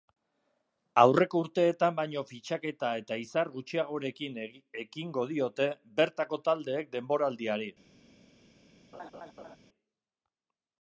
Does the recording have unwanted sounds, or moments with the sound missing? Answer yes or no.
yes